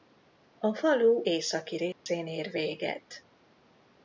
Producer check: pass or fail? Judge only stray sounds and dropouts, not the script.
fail